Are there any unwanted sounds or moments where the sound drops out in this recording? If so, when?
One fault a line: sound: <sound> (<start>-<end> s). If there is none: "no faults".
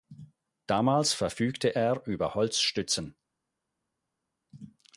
no faults